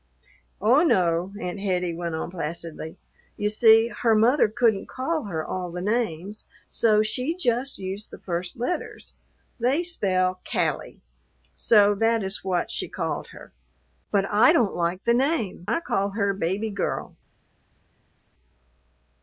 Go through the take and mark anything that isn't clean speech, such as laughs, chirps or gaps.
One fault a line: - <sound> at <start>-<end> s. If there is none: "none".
none